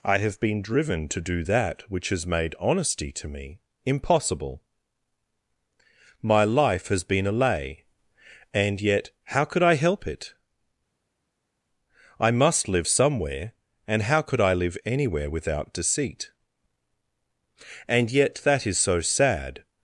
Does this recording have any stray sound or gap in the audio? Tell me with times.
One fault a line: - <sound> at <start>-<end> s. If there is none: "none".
none